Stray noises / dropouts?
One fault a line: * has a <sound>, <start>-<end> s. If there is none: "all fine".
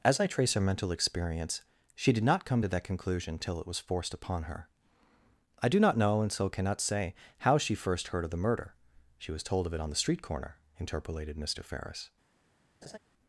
* has a laugh, 12.8-13.0 s